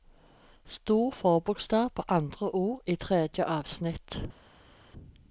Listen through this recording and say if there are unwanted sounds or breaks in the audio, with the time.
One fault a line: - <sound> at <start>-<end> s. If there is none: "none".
none